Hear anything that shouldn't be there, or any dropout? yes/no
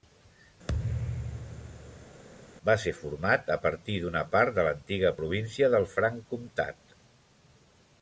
yes